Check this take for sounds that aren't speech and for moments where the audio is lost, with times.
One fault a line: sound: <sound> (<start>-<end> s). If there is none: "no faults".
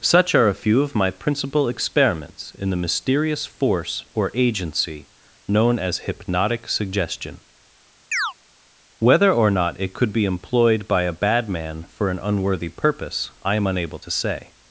sound: chirp (8.1-8.3 s)